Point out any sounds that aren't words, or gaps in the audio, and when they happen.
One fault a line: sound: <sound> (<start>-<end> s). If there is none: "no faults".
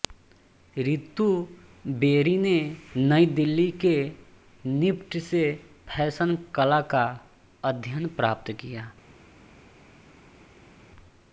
no faults